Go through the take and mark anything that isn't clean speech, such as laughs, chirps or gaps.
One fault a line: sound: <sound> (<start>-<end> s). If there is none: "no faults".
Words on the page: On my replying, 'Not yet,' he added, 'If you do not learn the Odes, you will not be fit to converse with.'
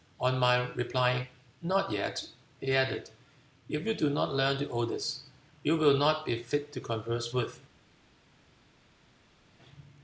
no faults